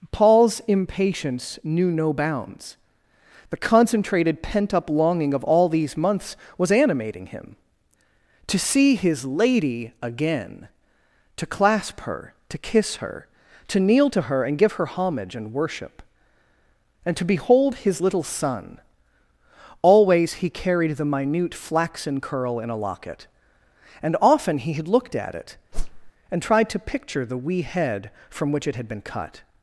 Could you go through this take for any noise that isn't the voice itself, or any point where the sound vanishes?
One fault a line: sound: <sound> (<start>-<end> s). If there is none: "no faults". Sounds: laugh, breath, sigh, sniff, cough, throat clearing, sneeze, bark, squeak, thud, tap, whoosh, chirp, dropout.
sound: whoosh (25.7-26.1 s)